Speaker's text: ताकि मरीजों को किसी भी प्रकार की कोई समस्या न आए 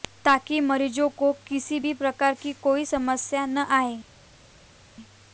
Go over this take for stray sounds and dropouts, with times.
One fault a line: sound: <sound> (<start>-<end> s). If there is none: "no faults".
no faults